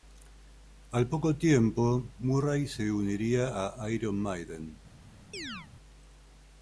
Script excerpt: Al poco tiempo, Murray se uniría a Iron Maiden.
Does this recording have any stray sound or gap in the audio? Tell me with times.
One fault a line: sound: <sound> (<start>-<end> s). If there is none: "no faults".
sound: chirp (5.3-5.7 s)